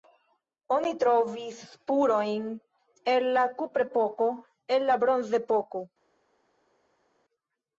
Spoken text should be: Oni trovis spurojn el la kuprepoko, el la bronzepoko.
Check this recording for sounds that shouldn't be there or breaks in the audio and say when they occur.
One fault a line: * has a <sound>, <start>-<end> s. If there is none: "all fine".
all fine